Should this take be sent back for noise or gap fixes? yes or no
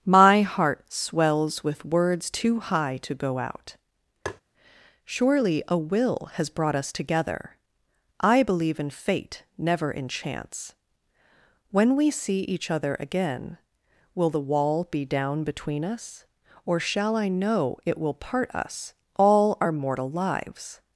yes